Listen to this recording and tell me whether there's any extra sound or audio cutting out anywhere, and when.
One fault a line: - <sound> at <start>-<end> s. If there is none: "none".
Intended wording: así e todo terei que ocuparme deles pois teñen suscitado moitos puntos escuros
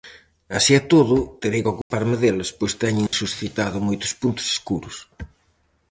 - dropout at 1.8-1.9 s
- dropout at 3.1-3.1 s